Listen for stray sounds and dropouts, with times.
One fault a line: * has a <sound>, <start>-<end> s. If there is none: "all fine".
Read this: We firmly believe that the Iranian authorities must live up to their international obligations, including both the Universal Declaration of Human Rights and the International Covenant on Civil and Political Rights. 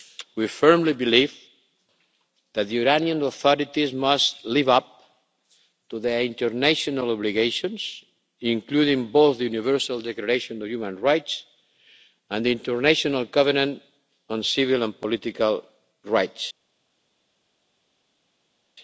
all fine